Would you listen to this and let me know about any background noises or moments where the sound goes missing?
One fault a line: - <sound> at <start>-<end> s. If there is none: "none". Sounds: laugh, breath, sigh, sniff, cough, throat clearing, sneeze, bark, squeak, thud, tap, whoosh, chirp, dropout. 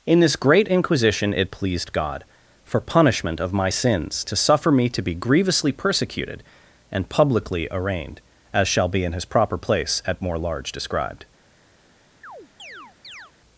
- chirp at 12.2-13.3 s